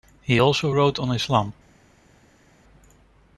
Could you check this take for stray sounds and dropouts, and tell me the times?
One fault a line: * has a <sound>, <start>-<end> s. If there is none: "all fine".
all fine